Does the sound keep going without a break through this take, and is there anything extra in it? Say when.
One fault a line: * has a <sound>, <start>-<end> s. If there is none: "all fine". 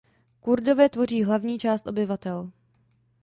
all fine